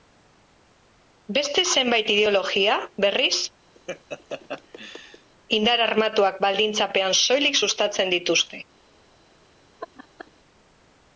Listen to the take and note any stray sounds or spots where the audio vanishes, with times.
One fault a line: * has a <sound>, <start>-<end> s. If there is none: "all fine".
* has a laugh, 3.7-5.3 s
* has a laugh, 9.8-10.3 s